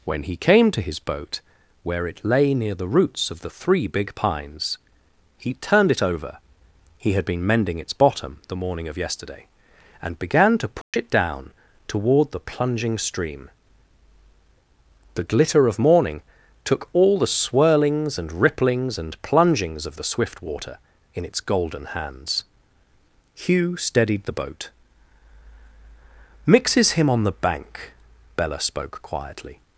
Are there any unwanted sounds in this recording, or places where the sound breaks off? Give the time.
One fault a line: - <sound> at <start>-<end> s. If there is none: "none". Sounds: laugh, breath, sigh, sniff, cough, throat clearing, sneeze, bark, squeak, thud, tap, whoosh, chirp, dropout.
- dropout at 10.8-10.9 s